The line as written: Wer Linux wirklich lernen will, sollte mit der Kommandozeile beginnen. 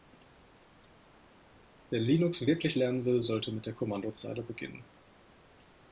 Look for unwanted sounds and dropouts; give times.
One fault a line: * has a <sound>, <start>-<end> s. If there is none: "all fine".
all fine